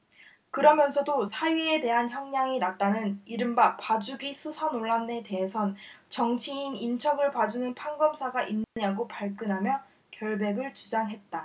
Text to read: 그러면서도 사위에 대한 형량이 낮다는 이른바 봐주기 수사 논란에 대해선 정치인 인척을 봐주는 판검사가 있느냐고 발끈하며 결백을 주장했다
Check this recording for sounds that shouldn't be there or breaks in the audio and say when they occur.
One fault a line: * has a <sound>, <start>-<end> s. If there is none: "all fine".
* has a dropout, 8.6-8.8 s